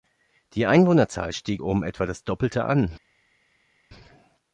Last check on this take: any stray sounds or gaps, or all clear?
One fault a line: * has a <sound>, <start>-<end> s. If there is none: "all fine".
all fine